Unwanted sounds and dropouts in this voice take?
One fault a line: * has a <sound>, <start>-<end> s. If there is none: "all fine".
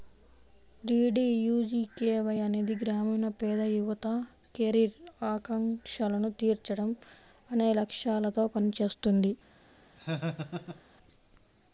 * has a laugh, 10.0-10.8 s